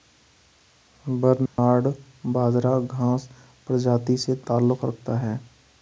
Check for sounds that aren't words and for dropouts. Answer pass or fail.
fail